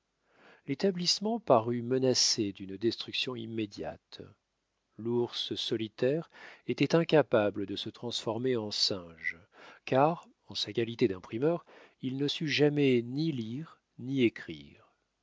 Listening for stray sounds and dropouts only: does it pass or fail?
pass